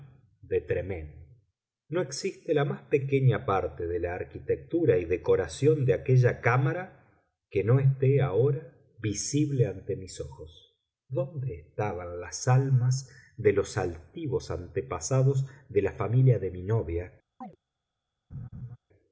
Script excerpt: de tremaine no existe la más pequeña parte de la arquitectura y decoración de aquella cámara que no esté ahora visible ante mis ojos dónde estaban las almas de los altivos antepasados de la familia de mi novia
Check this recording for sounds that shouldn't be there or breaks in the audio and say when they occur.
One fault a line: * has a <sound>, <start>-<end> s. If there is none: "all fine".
* has a chirp, 17.4-17.6 s
* has a laugh, 18.3-18.8 s